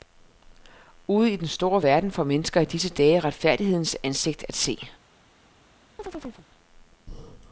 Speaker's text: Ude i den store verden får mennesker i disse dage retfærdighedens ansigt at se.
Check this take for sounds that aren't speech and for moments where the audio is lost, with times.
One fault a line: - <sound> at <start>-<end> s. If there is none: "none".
- chirp at 6.0-6.5 s